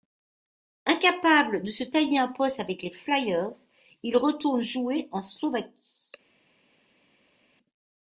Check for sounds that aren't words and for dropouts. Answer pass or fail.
pass